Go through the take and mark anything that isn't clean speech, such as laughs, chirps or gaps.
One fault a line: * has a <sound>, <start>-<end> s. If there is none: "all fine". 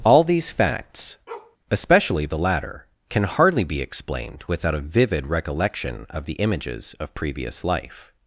* has a bark, 1.3-1.6 s